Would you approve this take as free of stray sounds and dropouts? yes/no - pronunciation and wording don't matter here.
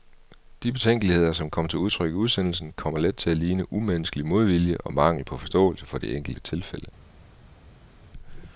yes